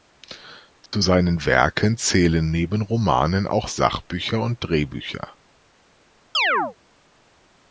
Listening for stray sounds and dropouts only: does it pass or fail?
fail